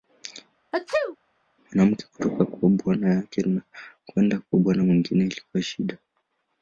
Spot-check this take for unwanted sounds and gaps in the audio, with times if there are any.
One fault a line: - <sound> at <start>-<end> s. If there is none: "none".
- sneeze at 0.7-1.2 s